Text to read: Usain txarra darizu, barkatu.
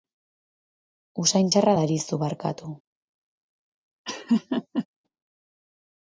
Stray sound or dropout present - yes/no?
yes